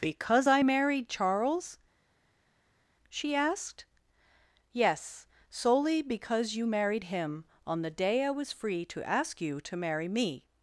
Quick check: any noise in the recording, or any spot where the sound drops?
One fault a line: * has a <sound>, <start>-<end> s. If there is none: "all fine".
all fine